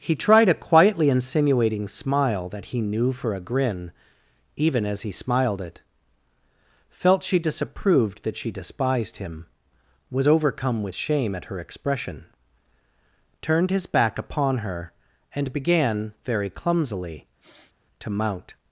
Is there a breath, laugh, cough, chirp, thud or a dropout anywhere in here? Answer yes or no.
yes